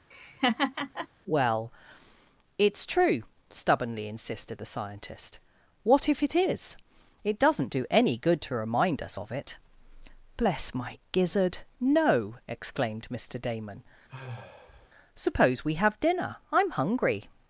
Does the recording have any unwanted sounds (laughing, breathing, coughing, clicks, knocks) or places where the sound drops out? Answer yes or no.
yes